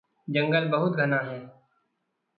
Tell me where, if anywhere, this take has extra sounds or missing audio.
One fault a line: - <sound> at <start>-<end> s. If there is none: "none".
none